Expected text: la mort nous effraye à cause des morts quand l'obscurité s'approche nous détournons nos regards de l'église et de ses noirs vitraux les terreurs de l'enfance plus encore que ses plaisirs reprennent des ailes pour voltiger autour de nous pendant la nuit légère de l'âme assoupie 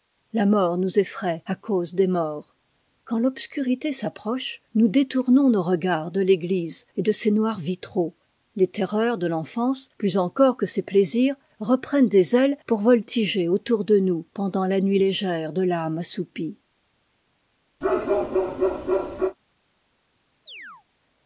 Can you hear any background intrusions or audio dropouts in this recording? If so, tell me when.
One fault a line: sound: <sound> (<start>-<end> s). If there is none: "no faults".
sound: bark (17.8-19.4 s)
sound: chirp (20.5-20.8 s)